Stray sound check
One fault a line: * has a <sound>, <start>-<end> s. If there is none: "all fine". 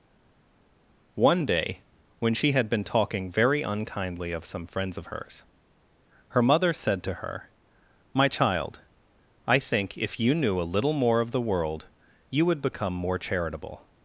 all fine